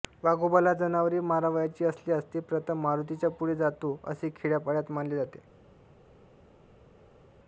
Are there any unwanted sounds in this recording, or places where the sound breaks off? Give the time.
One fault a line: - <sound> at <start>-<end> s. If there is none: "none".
none